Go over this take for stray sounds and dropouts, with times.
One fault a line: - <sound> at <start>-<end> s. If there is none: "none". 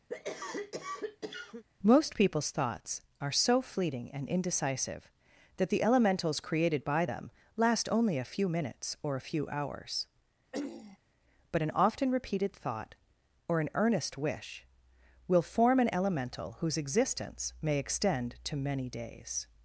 - cough at 0.1-1.6 s
- throat clearing at 10.5-11.0 s